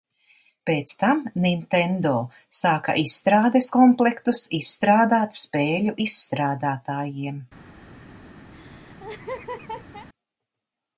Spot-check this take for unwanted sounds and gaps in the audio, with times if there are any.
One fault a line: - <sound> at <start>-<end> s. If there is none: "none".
- laugh at 8.5-10.1 s